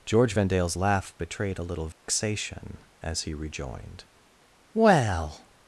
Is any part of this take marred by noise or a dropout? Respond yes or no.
yes